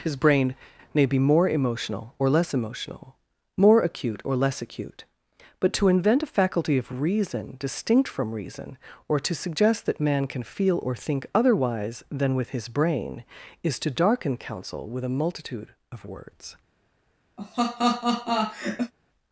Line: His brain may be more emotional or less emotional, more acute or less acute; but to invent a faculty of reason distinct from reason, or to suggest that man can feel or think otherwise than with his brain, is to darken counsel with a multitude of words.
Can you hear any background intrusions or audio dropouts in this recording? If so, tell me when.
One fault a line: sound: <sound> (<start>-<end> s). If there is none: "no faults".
sound: laugh (17.4-18.9 s)